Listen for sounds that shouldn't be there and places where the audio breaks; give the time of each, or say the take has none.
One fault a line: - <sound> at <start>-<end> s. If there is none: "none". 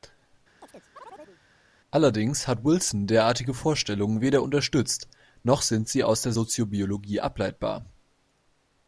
- chirp at 0.6-1.4 s